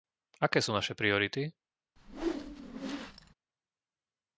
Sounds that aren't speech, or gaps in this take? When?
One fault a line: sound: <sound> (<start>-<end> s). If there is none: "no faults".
sound: whoosh (2.0-3.3 s)